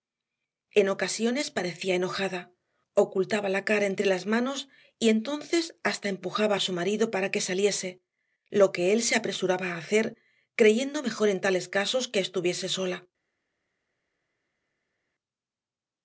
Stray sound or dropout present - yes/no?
no